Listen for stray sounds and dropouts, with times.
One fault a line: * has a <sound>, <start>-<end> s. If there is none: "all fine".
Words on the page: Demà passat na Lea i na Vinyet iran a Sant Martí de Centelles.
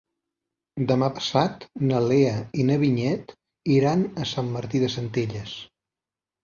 all fine